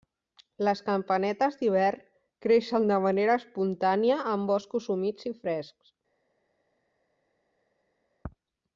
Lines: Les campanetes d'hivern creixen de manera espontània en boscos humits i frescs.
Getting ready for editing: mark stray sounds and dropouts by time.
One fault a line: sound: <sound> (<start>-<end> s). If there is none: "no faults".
no faults